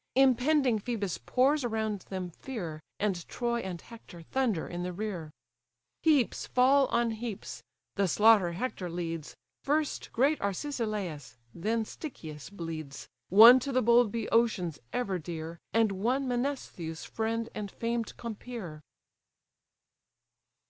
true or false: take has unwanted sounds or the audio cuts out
false